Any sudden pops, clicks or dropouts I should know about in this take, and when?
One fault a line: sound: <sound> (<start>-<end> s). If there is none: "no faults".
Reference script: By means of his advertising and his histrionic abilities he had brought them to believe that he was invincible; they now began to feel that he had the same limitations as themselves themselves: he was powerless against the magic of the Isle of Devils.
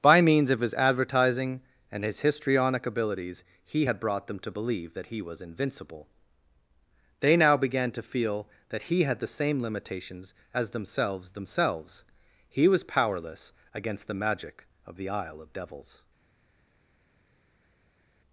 no faults